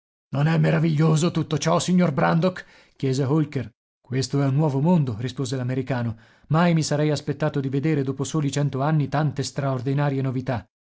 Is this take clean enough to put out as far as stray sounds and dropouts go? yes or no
yes